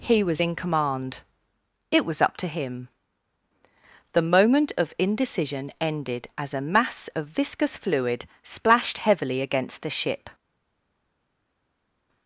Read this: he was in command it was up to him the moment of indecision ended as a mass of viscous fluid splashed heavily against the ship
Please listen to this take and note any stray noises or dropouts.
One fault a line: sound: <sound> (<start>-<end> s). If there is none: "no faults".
no faults